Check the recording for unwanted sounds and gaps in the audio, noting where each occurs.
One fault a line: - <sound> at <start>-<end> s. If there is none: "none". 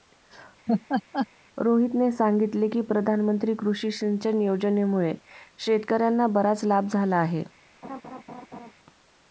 - laugh at 0.7-1.3 s
- laugh at 7.8-8.7 s